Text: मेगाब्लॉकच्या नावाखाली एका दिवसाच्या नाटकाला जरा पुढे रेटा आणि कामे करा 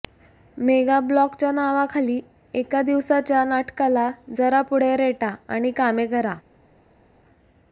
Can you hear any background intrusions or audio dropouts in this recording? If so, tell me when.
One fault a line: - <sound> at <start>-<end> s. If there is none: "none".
none